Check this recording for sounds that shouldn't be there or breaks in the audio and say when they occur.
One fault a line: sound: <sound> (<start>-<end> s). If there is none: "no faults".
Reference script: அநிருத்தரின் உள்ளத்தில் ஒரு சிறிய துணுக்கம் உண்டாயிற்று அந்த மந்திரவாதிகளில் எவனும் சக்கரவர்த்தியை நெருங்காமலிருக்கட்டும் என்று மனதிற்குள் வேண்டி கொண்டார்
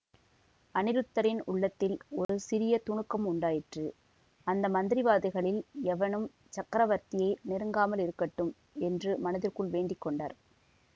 sound: dropout (2.2-2.3 s)